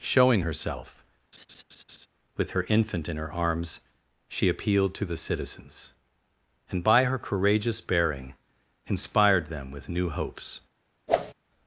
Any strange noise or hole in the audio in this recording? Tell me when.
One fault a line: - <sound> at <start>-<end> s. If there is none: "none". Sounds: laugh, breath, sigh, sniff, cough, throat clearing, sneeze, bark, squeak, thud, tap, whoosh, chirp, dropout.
- laugh at 1.3-2.1 s
- whoosh at 11.1-11.3 s